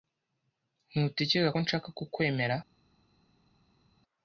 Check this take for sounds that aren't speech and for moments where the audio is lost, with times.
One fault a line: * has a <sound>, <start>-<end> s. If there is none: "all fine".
all fine